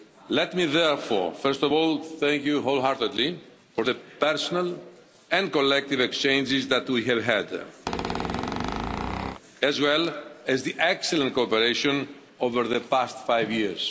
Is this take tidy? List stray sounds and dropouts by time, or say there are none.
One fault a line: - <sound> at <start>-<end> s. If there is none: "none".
- squeak at 7.9-9.4 s